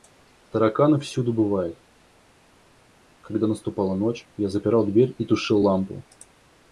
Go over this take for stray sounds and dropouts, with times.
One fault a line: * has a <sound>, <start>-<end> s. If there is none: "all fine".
all fine